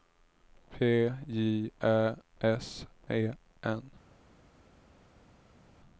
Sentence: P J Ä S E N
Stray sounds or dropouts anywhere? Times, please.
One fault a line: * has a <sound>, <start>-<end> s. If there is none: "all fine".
all fine